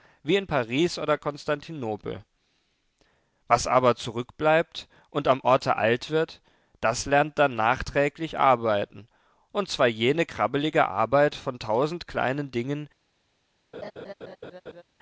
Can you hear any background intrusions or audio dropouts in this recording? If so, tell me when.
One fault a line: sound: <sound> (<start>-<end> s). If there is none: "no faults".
sound: laugh (13.7-14.8 s)